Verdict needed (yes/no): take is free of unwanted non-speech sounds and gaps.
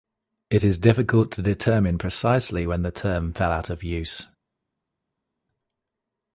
yes